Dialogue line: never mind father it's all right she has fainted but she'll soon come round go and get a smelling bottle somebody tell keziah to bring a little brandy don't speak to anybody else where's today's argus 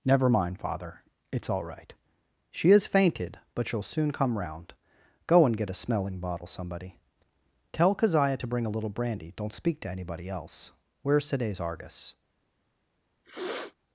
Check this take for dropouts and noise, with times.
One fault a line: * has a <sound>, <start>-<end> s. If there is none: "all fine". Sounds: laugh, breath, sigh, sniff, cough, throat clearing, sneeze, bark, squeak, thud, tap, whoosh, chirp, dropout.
* has a sniff, 13.2-13.8 s